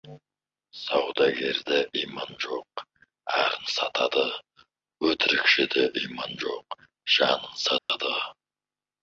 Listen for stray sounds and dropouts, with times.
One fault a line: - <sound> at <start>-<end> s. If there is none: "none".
- dropout at 7.8-7.9 s